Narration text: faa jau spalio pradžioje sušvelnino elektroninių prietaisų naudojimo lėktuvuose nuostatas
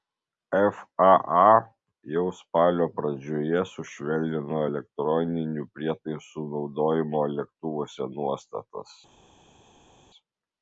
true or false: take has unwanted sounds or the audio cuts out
false